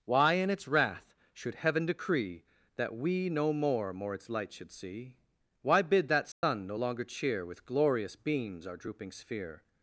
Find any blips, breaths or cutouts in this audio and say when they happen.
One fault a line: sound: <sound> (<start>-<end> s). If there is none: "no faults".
sound: dropout (6.3-6.4 s)